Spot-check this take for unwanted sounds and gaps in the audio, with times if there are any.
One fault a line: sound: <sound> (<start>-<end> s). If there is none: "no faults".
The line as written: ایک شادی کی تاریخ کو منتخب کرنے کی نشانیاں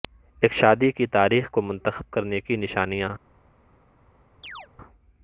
sound: chirp (4.4-4.7 s)